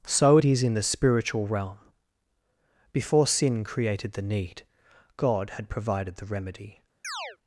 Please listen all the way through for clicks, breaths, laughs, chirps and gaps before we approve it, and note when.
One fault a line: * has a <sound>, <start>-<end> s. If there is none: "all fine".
* has a chirp, 7.0-7.4 s